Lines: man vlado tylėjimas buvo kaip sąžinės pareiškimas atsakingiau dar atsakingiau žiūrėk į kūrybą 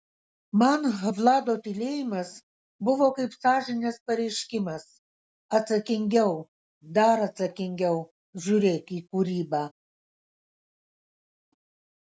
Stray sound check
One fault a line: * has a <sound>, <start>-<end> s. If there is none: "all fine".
all fine